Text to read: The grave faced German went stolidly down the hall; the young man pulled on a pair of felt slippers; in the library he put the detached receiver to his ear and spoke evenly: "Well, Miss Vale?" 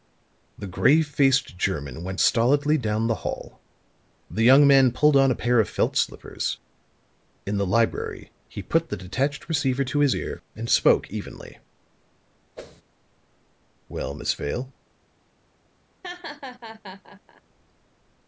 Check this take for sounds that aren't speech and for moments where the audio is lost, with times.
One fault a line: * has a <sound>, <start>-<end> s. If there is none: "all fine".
* has a whoosh, 12.5-12.8 s
* has a laugh, 16.0-17.4 s